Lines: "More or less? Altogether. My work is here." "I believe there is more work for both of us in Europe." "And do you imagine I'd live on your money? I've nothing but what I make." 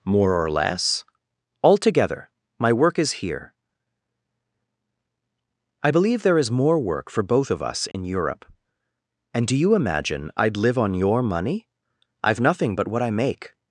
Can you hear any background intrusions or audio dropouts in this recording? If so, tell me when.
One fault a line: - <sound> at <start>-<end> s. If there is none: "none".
- dropout at 7.9-7.9 s